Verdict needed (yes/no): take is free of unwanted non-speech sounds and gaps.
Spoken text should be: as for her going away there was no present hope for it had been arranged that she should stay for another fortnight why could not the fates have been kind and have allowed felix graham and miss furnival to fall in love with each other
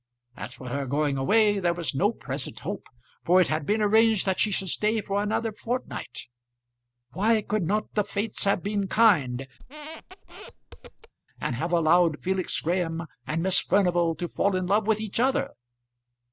no